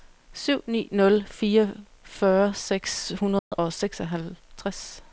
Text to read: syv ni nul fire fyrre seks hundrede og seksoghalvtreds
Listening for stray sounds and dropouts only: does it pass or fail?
fail